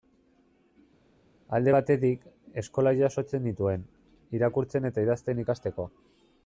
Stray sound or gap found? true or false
false